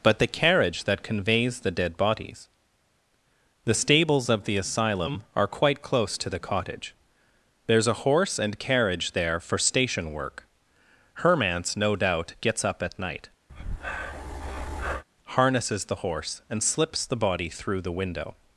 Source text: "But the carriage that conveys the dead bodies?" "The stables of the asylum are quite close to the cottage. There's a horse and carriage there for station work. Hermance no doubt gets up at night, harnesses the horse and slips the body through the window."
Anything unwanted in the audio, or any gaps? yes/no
yes